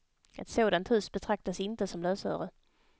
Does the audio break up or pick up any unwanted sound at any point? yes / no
no